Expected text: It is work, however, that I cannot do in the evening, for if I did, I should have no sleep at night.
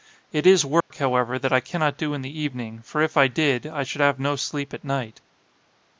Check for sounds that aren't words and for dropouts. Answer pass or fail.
fail